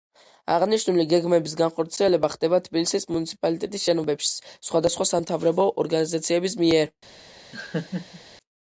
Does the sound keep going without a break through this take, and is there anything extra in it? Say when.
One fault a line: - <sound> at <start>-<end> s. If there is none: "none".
- laugh at 7.5-8.2 s